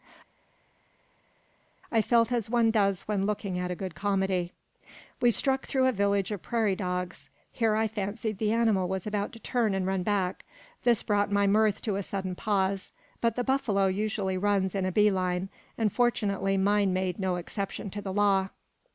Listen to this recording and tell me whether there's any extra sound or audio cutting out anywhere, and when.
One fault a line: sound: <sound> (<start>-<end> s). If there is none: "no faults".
no faults